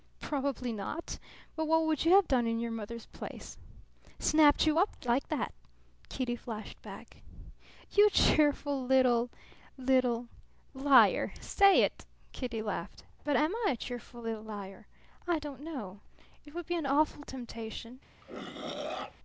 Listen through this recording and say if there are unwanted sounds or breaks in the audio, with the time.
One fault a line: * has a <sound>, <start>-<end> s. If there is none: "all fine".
* has a throat clearing, 18.2-19.2 s